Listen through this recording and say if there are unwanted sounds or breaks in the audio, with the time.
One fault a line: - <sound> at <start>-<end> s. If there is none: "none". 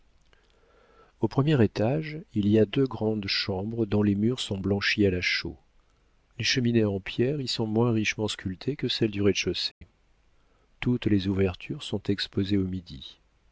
- dropout at 9.7-9.8 s